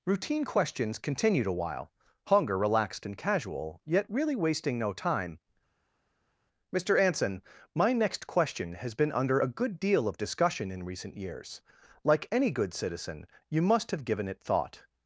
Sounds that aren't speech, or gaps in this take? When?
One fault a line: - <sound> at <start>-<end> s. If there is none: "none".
none